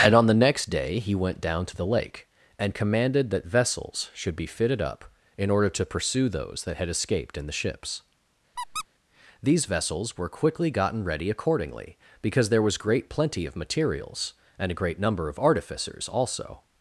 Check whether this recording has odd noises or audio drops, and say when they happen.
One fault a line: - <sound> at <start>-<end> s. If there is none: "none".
- squeak at 8.6-8.9 s